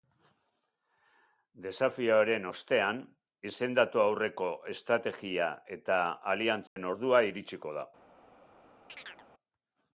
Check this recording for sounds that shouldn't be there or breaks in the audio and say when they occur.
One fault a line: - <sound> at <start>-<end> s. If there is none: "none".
- dropout at 6.7-6.8 s
- chirp at 8.9-9.3 s